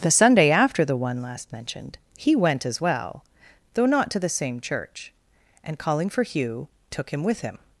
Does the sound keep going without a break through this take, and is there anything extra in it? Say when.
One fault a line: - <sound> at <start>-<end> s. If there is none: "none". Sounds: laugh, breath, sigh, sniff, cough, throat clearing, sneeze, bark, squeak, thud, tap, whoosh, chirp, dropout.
none